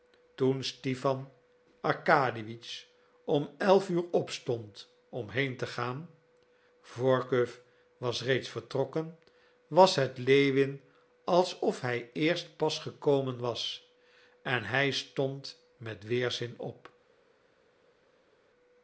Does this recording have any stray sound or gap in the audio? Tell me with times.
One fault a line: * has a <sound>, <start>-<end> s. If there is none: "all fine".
all fine